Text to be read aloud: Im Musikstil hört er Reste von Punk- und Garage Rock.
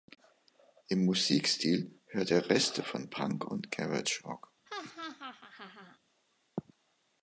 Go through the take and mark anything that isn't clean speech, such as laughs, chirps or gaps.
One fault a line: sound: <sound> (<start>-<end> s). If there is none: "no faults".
sound: laugh (4.6-6.0 s)